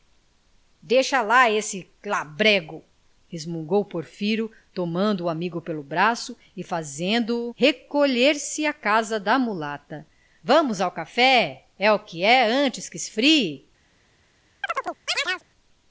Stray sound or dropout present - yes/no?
yes